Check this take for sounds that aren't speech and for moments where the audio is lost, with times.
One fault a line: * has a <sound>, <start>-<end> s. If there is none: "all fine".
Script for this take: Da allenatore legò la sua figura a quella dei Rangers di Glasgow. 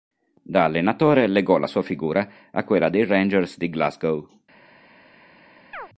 * has a chirp, 5.7-5.9 s